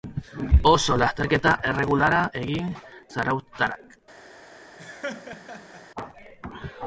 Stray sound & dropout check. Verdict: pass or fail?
fail